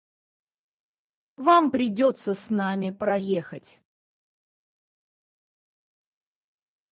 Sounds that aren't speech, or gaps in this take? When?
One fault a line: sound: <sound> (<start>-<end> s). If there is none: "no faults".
no faults